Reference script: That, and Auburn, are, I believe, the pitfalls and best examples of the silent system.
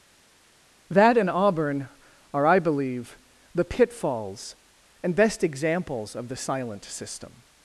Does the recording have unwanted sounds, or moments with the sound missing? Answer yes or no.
no